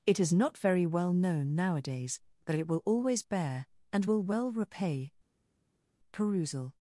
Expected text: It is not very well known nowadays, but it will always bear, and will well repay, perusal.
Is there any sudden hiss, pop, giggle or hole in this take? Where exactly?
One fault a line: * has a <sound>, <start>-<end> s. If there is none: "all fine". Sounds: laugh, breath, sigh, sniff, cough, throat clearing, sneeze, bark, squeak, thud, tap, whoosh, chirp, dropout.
all fine